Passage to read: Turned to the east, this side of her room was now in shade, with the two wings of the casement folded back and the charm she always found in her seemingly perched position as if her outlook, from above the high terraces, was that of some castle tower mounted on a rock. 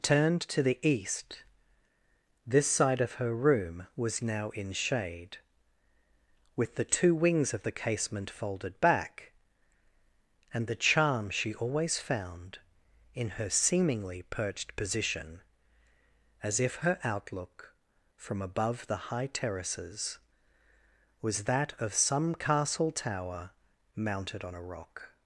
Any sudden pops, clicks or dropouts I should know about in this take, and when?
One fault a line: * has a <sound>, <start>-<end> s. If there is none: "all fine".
all fine